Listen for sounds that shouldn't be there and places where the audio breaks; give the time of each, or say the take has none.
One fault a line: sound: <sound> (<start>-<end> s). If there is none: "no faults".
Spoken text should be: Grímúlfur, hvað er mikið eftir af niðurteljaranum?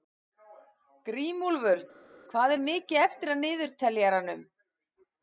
no faults